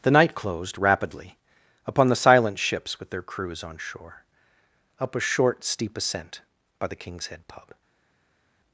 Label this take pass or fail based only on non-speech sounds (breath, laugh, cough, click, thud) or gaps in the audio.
pass